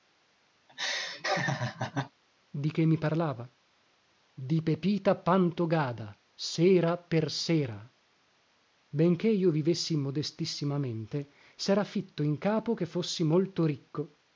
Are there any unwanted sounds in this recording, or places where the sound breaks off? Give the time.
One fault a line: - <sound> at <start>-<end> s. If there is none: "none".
- laugh at 0.7-2.1 s